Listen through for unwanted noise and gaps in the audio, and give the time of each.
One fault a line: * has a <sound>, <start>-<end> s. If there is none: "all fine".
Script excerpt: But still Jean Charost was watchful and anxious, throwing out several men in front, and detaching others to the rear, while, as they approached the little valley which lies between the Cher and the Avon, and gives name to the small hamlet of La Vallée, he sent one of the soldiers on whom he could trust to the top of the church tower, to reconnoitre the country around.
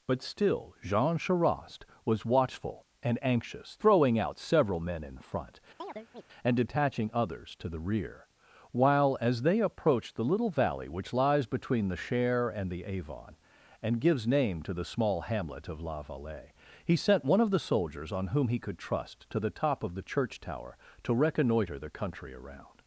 * has a chirp, 5.8-6.2 s